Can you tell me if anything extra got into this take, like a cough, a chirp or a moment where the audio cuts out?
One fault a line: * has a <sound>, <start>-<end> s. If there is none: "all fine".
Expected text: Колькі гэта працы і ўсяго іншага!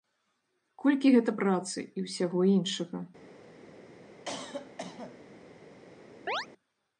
* has a cough, 4.3-5.2 s
* has a chirp, 6.3-6.5 s